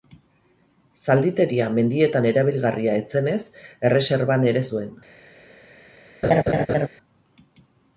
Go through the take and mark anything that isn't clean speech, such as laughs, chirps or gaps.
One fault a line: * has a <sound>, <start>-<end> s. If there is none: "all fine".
* has a laugh, 6.2-6.9 s